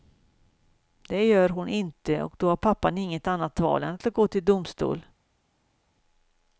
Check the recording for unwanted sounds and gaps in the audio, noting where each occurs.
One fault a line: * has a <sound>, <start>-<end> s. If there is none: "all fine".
all fine